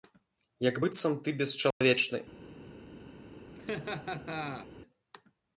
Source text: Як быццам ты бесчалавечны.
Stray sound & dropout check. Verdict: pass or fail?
fail